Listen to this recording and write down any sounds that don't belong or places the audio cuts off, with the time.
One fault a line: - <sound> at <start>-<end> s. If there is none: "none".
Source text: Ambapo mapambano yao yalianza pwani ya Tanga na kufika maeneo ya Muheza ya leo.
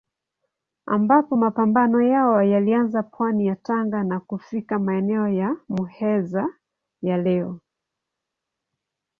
none